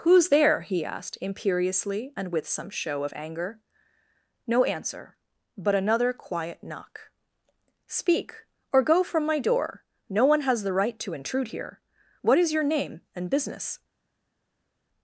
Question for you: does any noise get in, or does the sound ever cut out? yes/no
no